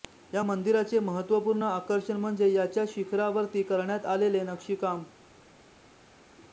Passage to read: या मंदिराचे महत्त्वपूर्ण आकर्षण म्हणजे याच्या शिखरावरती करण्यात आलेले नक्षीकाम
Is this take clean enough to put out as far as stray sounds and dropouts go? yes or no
yes